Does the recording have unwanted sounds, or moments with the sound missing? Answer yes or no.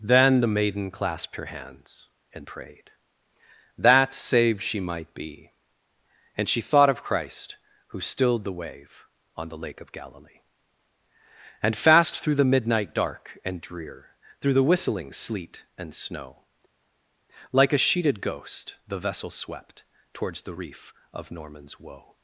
no